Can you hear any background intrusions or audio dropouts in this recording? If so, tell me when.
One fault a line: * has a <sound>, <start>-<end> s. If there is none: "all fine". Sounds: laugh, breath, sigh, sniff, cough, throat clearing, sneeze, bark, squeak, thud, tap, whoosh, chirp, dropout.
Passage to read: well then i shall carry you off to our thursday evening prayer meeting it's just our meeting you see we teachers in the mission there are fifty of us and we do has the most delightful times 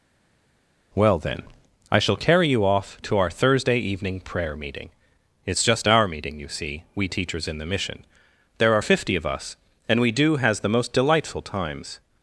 all fine